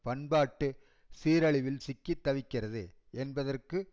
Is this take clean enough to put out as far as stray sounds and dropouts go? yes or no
yes